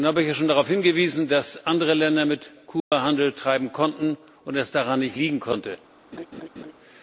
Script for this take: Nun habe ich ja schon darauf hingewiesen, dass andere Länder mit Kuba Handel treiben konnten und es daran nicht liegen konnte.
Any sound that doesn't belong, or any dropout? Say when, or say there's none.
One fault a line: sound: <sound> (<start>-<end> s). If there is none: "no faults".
sound: dropout (2.8-2.9 s)
sound: laugh (6.1-6.7 s)